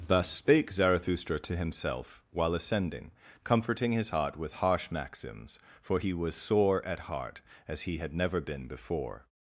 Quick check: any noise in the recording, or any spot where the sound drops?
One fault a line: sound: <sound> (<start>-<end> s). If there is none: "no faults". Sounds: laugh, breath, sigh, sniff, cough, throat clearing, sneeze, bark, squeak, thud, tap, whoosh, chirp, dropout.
no faults